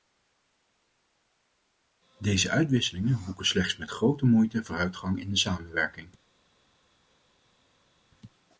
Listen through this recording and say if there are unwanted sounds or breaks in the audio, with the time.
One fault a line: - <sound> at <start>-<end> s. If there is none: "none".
none